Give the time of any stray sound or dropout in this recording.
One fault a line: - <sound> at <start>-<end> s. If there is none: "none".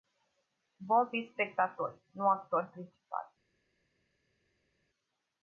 none